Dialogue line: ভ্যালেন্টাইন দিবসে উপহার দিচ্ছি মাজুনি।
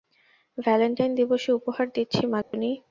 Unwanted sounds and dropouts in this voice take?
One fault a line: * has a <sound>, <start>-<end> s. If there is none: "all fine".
* has a dropout, 2.4-2.5 s